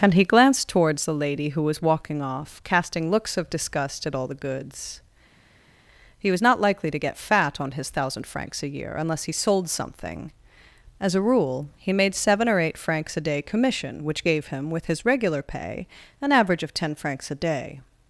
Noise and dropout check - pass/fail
pass